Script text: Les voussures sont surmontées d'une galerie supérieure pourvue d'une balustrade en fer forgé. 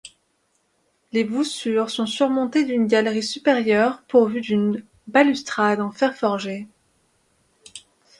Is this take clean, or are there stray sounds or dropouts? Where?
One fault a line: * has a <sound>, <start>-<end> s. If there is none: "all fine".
all fine